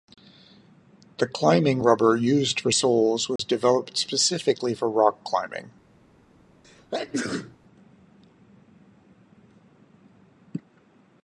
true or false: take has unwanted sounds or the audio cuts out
true